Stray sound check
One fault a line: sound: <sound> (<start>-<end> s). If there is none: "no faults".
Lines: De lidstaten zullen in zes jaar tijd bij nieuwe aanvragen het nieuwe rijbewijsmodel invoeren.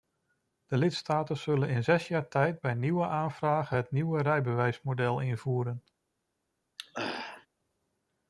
sound: throat clearing (6.8-7.5 s)